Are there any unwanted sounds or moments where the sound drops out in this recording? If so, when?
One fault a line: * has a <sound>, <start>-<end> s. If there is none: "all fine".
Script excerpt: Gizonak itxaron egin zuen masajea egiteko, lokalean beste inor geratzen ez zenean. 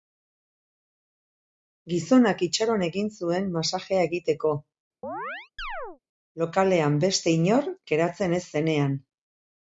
* has a chirp, 5.0-6.0 s